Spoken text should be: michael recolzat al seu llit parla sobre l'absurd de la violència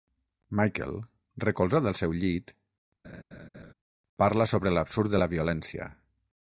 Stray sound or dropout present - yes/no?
yes